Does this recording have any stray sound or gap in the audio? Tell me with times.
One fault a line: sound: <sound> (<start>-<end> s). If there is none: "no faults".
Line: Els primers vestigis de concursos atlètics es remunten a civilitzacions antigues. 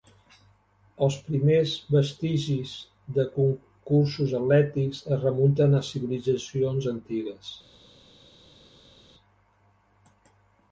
no faults